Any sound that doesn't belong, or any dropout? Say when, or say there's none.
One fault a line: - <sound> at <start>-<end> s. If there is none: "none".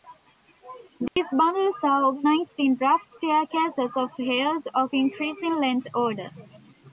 - dropout at 1.1-1.2 s